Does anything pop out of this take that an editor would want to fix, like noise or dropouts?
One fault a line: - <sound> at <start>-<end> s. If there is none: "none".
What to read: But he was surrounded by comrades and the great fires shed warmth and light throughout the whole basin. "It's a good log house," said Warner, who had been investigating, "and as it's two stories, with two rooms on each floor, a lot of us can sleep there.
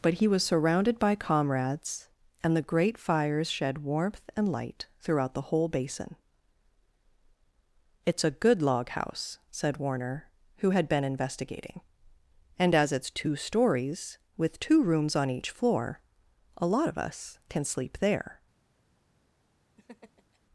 - laugh at 19.8-20.4 s